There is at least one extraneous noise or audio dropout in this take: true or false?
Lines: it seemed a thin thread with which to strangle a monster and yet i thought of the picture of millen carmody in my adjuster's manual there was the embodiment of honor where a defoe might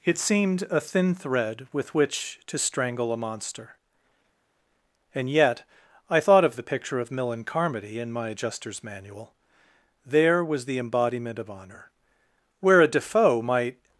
false